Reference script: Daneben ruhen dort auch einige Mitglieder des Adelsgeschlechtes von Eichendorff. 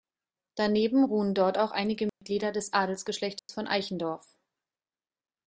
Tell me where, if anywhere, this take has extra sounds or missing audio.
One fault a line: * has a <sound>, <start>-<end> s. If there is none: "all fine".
* has a dropout, 2.1-2.2 s
* has a dropout, 3.4-3.5 s